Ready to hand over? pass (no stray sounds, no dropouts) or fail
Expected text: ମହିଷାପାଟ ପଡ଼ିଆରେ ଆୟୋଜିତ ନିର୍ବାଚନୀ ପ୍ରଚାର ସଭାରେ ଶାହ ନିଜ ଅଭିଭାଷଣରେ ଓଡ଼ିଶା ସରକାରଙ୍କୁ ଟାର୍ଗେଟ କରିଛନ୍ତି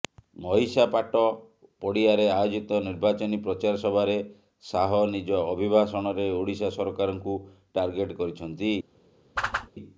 fail